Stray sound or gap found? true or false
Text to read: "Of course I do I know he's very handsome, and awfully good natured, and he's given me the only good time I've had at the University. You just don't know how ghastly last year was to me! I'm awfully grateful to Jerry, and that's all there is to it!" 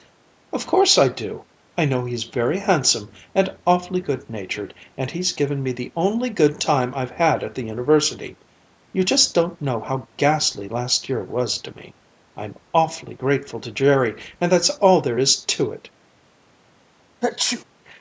true